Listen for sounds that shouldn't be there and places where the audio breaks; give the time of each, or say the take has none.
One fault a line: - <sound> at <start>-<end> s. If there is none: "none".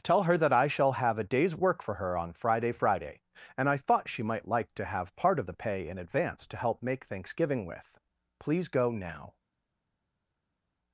none